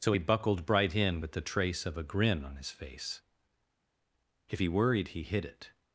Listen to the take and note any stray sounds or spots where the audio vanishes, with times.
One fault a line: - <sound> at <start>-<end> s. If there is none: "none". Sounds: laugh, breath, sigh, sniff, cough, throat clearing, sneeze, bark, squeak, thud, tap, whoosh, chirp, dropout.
none